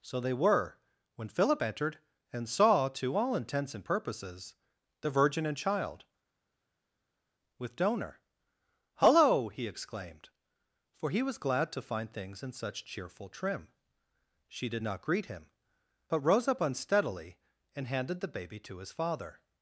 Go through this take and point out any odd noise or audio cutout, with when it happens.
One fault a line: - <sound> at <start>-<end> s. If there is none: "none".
none